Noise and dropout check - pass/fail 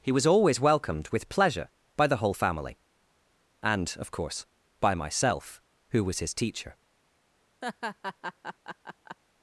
fail